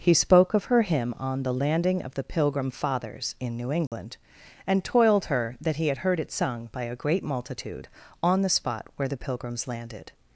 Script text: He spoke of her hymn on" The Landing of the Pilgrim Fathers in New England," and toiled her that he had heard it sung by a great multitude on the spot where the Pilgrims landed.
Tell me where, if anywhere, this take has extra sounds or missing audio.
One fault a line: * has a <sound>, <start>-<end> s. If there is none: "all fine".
* has a dropout, 3.9-3.9 s